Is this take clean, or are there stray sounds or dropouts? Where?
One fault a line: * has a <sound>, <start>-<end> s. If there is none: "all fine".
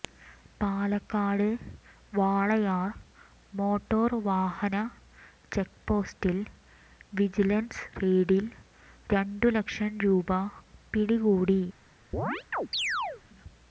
* has a chirp, 12.1-13.2 s